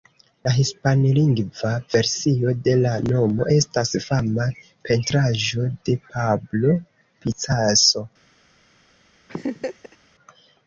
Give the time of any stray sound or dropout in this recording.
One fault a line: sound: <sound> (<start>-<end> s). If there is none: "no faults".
sound: laugh (9.3-10.0 s)